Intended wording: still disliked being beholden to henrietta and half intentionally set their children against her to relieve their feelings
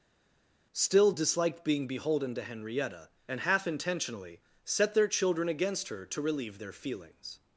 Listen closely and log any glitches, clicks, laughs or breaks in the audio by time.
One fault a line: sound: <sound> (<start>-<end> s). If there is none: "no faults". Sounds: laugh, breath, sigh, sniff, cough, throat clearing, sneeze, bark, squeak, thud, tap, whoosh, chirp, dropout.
no faults